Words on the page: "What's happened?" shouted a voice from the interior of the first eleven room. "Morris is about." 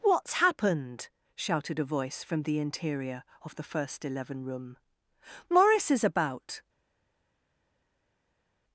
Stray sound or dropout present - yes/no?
no